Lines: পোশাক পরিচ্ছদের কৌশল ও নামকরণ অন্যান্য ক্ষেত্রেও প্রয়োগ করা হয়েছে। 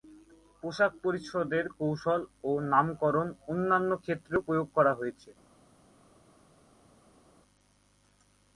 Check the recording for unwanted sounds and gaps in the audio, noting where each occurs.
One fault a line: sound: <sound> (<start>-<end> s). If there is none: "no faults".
no faults